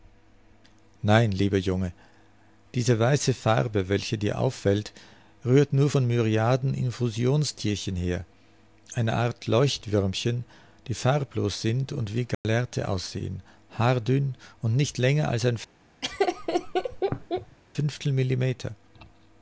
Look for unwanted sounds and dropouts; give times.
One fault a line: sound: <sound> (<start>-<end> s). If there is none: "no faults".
sound: dropout (12.3-12.4 s)
sound: laugh (16.0-17.6 s)